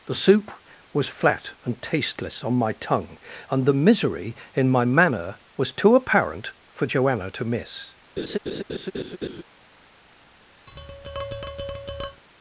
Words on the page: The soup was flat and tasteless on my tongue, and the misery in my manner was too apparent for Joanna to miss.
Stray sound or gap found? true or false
true